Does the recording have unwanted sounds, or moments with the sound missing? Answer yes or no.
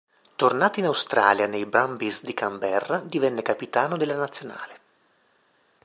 no